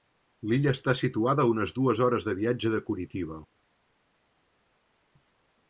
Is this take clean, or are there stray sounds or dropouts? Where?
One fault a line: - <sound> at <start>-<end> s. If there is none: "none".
none